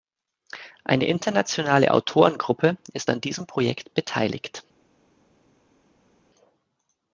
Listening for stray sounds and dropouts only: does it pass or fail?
pass